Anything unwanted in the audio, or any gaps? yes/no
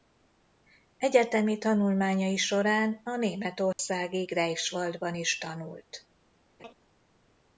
yes